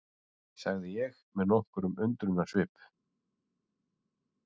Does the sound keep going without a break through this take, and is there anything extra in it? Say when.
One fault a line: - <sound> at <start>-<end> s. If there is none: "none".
none